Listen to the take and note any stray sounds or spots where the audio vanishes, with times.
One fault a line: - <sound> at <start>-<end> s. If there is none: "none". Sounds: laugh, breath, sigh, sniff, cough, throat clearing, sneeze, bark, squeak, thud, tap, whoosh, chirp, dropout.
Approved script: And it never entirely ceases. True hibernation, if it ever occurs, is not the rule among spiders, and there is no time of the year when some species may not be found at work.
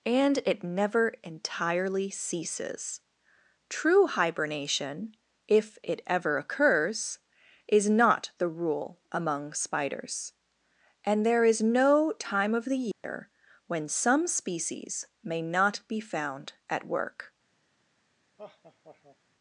- dropout at 12.9-13.0 s
- laugh at 18.4-19.2 s